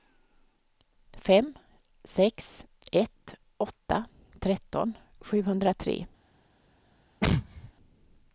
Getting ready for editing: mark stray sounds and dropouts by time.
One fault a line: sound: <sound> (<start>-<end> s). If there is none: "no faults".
sound: sneeze (7.2-7.7 s)